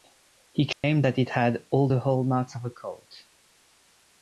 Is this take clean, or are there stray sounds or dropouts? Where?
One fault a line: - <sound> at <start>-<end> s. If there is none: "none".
- dropout at 0.7-0.8 s